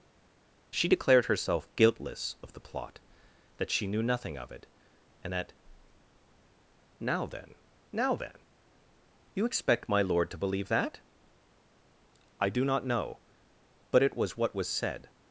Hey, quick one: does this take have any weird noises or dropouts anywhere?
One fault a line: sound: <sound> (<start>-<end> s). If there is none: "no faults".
no faults